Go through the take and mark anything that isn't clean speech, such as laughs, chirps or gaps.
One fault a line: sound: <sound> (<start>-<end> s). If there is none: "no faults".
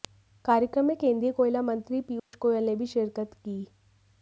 sound: dropout (2.2-2.3 s)